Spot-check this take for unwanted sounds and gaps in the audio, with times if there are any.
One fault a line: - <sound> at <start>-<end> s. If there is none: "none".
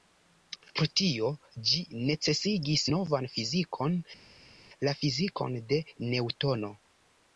none